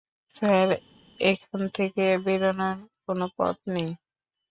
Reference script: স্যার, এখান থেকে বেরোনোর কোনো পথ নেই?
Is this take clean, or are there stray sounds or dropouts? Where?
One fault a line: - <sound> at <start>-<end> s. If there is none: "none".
none